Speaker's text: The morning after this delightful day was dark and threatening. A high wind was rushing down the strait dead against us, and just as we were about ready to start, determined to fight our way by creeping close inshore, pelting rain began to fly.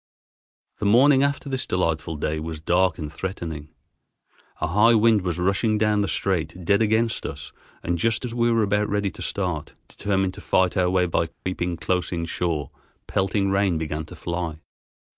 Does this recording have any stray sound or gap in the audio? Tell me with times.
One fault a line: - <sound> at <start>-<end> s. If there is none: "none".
- dropout at 11.3-11.5 s